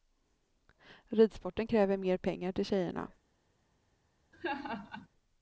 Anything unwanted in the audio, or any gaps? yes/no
yes